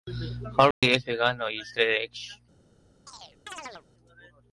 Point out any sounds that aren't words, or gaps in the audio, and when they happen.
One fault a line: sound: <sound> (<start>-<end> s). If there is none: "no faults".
sound: dropout (0.7-0.8 s)
sound: chirp (3.1-3.9 s)